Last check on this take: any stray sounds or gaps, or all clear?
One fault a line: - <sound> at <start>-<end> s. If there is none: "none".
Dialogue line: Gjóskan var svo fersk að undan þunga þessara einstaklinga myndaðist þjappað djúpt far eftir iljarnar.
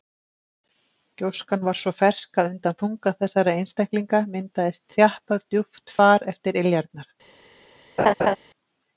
- laugh at 8.0-8.4 s